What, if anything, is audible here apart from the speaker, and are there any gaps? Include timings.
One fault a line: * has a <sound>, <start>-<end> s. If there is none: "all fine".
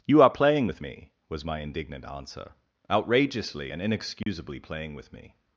* has a dropout, 4.2-4.3 s